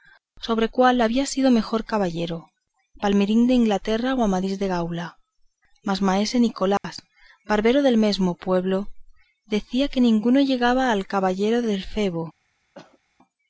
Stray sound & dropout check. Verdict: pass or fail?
fail